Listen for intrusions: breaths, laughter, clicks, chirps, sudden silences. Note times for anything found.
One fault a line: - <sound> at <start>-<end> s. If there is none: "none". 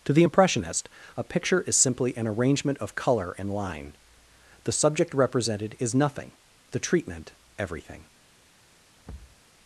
- thud at 9.1-9.4 s